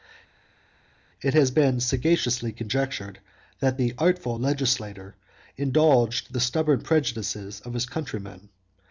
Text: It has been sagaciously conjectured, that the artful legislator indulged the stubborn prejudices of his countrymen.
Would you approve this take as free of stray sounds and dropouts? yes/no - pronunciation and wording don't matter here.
yes